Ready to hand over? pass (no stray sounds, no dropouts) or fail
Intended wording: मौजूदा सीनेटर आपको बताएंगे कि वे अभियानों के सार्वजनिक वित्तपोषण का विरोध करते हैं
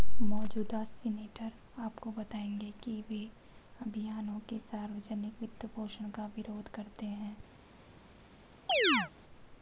fail